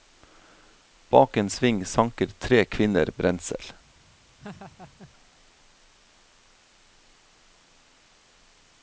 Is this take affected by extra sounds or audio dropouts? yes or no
yes